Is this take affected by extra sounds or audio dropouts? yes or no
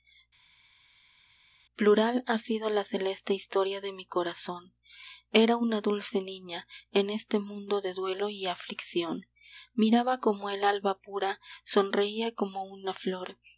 no